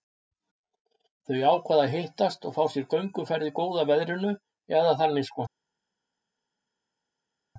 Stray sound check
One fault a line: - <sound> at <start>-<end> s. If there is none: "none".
none